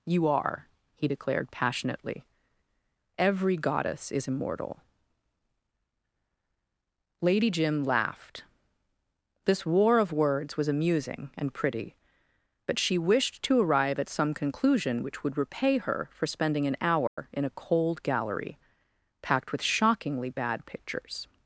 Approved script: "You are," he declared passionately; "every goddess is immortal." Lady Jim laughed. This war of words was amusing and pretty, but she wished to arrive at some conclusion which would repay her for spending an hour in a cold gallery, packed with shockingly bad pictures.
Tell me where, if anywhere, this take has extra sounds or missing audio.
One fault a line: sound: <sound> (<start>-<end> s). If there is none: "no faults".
sound: dropout (17.1-17.2 s)